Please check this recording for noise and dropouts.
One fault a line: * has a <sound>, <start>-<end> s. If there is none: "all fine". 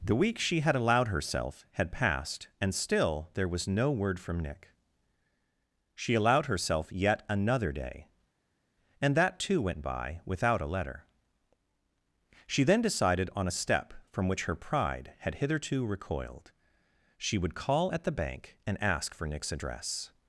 all fine